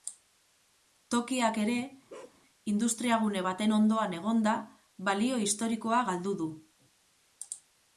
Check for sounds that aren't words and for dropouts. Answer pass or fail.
fail